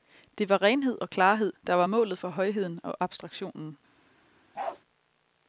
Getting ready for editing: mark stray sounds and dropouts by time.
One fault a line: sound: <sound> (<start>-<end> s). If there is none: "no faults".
sound: bark (4.5-4.8 s)